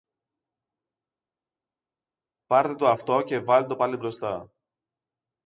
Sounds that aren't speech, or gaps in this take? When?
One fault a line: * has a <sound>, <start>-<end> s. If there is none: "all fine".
all fine